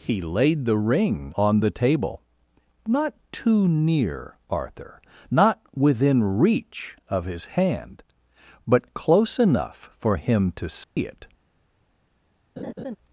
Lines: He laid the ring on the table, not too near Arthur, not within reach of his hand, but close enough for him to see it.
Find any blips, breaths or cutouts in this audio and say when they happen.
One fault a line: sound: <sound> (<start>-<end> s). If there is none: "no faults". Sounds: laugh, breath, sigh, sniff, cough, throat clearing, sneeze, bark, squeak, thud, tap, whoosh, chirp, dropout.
sound: dropout (10.8-11.0 s)
sound: laugh (12.6-13.0 s)